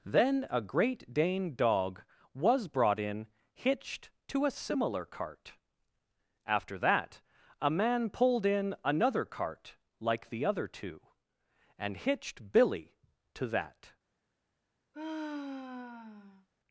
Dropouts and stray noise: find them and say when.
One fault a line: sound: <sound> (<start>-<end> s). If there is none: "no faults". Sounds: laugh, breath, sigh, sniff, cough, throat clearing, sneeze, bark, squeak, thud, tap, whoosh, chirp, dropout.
sound: sigh (14.9-16.5 s)